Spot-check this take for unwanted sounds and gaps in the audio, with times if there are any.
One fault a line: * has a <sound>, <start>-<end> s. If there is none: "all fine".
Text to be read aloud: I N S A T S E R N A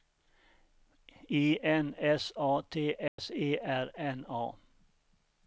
* has a dropout, 3.1-3.2 s